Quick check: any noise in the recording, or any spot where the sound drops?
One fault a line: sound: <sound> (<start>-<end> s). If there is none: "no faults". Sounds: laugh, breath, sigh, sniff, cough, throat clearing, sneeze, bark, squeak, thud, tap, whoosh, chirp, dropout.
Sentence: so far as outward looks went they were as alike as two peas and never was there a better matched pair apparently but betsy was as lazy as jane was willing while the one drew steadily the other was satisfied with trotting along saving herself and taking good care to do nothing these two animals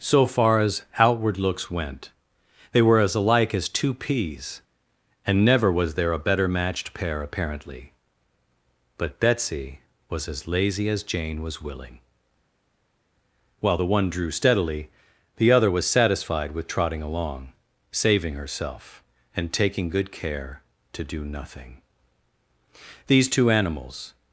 no faults